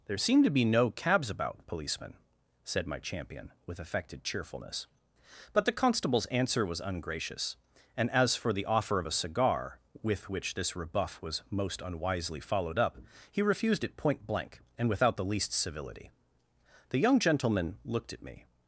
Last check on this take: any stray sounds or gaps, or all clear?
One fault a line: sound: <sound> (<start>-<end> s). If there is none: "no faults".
no faults